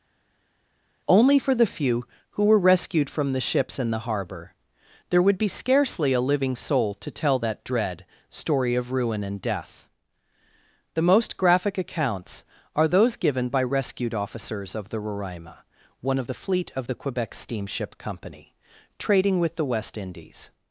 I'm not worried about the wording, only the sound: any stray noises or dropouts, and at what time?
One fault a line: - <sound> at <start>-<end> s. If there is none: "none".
none